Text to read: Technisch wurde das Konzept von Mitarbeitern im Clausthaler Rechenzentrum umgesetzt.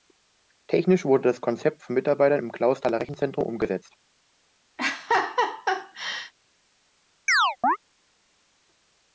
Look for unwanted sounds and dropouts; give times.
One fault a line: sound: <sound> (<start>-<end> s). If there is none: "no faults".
sound: laugh (4.8-6.3 s)
sound: chirp (7.3-7.8 s)